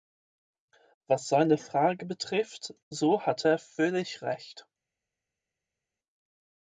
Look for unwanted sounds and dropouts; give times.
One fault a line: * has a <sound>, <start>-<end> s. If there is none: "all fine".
all fine